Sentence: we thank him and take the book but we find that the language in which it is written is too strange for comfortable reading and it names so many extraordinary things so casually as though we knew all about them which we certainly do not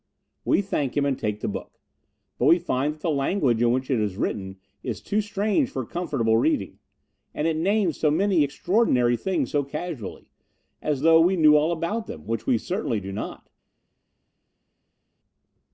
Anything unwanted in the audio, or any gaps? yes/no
no